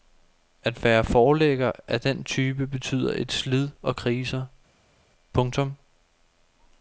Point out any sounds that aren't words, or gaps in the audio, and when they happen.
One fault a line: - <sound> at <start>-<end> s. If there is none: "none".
none